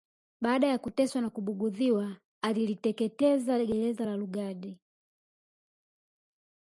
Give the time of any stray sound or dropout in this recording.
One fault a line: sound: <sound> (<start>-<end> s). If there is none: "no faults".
no faults